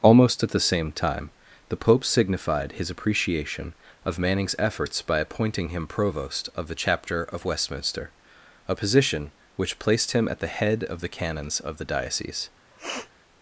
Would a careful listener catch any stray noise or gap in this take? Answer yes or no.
yes